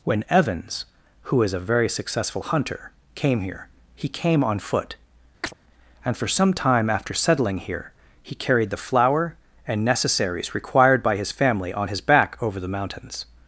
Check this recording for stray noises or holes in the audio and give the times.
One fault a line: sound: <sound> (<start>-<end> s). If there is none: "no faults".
sound: chirp (5.4-5.5 s)